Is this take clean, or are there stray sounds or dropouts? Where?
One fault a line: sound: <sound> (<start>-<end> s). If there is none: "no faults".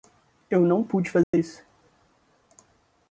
sound: dropout (1.2-1.3 s)